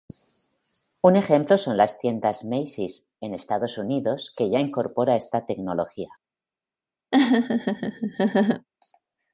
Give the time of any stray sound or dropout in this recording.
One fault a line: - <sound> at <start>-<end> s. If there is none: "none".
- laugh at 7.1-8.7 s